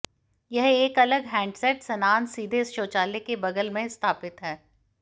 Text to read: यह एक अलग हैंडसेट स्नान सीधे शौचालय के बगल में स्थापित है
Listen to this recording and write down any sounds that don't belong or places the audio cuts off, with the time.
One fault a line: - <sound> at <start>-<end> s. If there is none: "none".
none